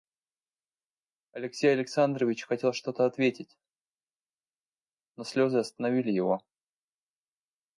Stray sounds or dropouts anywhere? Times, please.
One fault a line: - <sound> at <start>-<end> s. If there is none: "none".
none